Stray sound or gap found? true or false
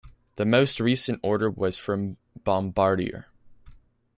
false